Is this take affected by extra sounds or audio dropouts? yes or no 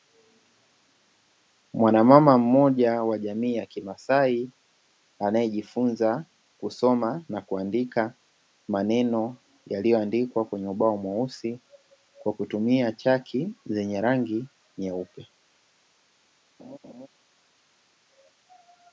yes